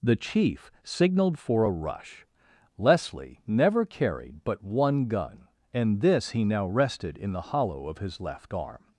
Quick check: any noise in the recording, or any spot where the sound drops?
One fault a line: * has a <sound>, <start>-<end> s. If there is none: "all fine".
all fine